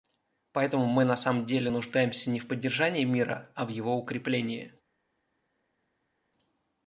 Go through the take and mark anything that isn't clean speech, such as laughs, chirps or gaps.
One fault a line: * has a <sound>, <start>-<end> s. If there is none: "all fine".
all fine